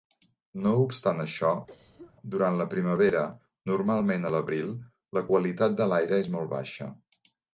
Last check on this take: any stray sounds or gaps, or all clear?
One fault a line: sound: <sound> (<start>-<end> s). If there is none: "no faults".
sound: cough (1.7-2.1 s)